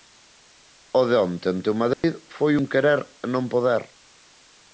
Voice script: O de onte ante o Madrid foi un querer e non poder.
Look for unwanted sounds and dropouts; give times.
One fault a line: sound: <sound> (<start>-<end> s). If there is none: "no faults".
sound: dropout (1.9-2.0 s)